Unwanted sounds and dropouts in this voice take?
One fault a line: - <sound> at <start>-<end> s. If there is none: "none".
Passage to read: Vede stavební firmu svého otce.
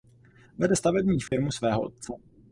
- dropout at 1.3-1.3 s